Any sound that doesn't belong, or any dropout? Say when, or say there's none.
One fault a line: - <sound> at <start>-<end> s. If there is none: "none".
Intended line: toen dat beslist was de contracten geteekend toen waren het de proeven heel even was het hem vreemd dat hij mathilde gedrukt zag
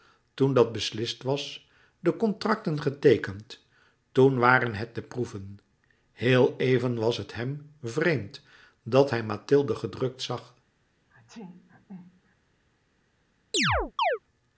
- sneeze at 11.1-12.3 s
- chirp at 13.5-14.2 s